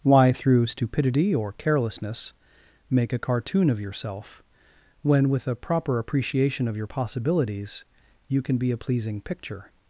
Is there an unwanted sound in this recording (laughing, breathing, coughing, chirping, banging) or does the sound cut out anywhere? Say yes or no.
no